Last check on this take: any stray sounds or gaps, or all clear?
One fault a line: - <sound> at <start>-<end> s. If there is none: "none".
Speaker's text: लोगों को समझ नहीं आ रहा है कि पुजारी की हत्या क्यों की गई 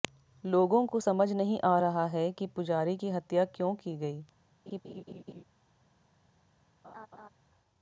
- laugh at 4.7-5.4 s
- laugh at 6.8-7.3 s